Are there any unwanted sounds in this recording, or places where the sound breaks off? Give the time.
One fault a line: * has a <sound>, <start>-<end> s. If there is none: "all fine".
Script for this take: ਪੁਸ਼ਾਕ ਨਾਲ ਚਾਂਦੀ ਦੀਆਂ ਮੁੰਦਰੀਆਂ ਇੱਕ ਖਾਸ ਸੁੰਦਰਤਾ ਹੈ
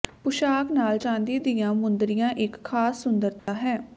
* has a dropout, 3.4-3.5 s